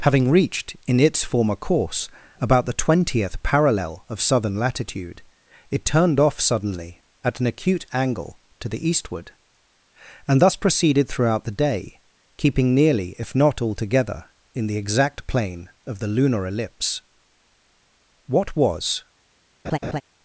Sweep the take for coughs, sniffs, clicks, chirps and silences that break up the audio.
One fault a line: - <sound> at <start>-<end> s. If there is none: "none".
- laugh at 19.6-20.0 s